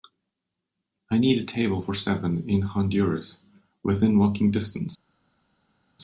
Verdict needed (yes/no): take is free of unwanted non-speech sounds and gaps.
yes